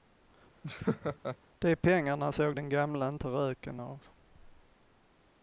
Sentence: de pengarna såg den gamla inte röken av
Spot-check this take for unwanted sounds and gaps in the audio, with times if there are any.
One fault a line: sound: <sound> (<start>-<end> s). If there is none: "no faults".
sound: laugh (0.6-1.4 s)